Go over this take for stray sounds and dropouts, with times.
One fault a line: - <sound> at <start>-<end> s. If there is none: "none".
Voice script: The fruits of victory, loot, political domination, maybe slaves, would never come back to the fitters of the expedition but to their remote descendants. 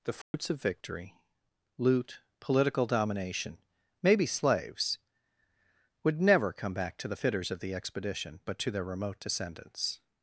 - dropout at 0.2-0.3 s